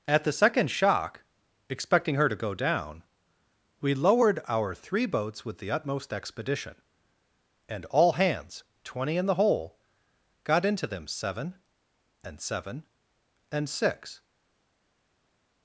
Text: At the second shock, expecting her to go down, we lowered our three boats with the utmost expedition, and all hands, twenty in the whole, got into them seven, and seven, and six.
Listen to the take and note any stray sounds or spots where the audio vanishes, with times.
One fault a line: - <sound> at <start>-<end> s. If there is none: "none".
none